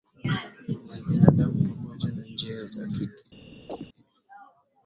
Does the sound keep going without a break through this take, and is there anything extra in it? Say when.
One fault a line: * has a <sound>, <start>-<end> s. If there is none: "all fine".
* has a chirp, 3.7-3.9 s